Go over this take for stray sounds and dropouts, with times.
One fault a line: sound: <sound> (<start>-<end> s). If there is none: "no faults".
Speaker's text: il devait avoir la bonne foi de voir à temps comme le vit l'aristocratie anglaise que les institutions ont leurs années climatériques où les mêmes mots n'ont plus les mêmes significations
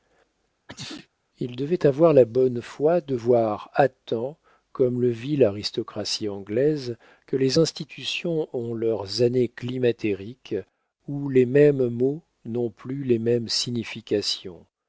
sound: sneeze (0.7-1.1 s)